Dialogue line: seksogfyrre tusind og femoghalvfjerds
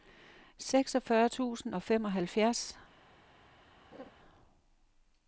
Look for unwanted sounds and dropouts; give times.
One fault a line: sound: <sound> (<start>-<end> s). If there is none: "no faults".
sound: laugh (3.9-4.1 s)